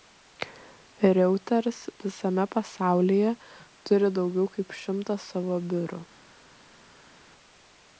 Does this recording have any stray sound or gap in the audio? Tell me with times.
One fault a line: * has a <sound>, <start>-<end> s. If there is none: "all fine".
all fine